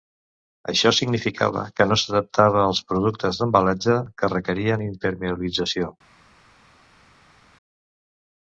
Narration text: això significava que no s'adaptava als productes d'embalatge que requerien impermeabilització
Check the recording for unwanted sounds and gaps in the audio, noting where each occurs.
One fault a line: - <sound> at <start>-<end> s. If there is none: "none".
none